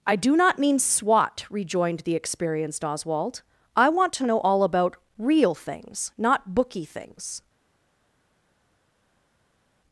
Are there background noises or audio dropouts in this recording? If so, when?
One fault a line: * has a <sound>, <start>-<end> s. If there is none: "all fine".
all fine